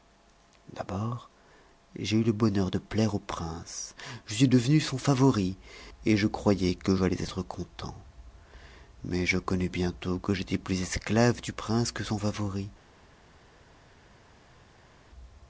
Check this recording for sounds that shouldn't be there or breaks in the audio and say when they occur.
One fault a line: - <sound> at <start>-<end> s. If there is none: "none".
none